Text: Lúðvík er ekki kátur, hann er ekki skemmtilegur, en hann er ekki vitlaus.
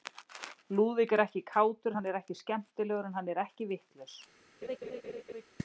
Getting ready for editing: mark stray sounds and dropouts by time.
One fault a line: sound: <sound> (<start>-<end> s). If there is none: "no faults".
sound: laugh (4.6-5.4 s)